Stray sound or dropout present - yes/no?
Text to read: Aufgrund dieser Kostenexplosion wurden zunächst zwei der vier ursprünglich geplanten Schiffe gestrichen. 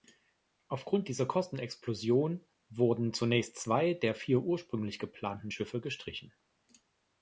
no